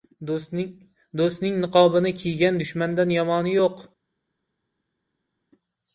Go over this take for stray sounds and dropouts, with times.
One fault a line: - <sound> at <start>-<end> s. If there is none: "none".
none